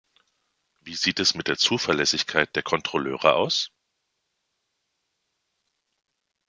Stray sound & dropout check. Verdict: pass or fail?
pass